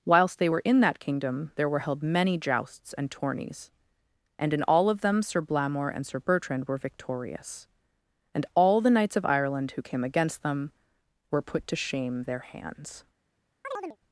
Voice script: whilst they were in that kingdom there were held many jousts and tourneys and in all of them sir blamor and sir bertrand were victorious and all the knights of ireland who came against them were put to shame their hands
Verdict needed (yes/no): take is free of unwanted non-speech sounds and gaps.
no